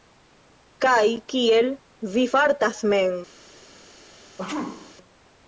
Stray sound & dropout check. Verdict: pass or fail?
fail